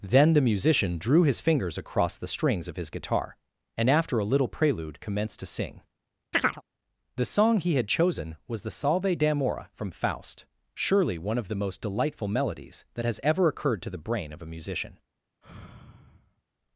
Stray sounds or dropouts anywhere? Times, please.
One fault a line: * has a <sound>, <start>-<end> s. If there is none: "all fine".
* has a chirp, 6.3-6.6 s
* has a sigh, 15.4-16.4 s